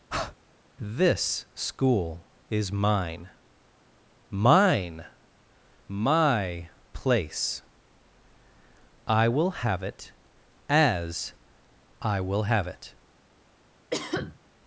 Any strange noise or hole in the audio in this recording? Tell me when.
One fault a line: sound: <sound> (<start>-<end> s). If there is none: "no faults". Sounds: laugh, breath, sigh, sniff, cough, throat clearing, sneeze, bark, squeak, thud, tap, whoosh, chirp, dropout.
sound: breath (0.1-0.4 s)
sound: cough (13.9-14.4 s)